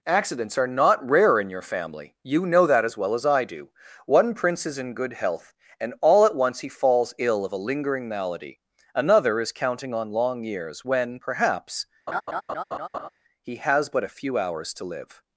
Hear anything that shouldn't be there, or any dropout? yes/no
yes